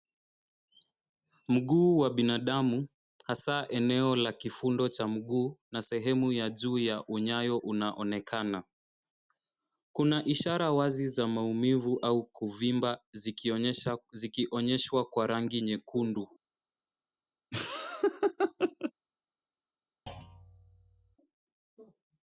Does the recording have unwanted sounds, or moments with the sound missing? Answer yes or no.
yes